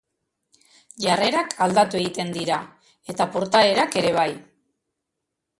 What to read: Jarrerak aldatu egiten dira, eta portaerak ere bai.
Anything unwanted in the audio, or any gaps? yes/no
no